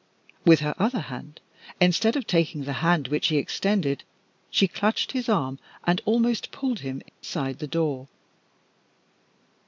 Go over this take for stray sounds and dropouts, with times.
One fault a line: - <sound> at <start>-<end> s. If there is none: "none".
- dropout at 7.1-7.2 s